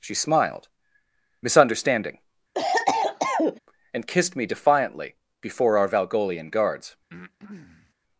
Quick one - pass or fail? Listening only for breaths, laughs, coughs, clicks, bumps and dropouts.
fail